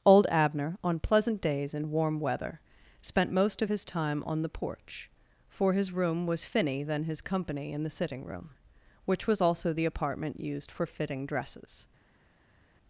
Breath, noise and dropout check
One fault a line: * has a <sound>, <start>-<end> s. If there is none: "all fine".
all fine